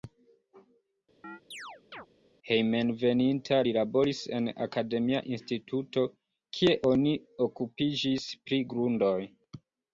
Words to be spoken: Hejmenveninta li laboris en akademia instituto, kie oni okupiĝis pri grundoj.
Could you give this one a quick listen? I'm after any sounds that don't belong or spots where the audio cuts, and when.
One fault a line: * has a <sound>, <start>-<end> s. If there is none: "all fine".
* has a chirp, 1.2-2.1 s